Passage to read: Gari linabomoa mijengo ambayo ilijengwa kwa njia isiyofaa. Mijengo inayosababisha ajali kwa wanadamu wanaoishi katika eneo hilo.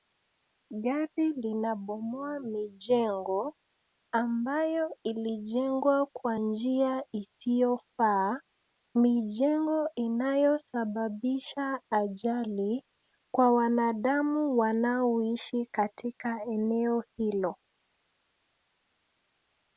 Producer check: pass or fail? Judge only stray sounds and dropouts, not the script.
pass